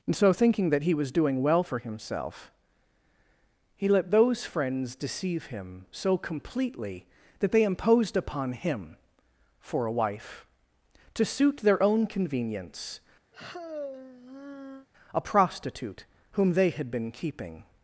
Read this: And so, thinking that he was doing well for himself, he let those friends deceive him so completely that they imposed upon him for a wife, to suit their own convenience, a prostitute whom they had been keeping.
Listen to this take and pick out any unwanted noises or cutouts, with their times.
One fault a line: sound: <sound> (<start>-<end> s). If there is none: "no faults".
sound: sigh (13.3-14.9 s)